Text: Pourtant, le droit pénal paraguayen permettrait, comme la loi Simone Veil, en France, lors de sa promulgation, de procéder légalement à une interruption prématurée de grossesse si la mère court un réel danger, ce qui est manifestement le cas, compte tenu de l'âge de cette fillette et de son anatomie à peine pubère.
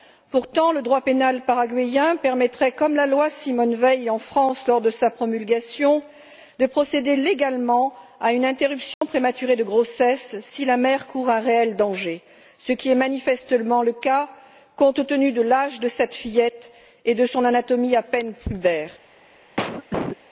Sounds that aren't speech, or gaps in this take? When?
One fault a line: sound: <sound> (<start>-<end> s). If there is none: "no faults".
sound: dropout (8.9-9.0 s)
sound: cough (19.6-20.2 s)